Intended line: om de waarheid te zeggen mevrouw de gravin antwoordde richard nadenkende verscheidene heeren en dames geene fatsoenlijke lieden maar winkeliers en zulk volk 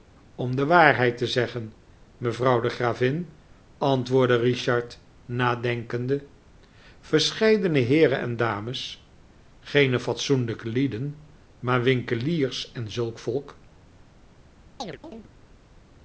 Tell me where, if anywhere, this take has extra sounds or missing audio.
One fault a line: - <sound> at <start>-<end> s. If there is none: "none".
- chirp at 14.8-15.3 s